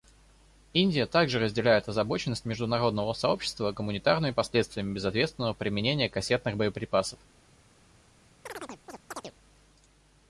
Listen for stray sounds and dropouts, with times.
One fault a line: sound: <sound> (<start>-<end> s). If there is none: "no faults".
sound: chirp (8.5-9.3 s)